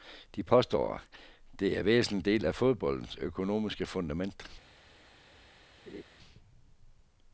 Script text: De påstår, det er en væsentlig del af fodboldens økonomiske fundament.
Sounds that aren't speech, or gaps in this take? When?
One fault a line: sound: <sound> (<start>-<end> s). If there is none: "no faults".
sound: laugh (5.9-6.0 s)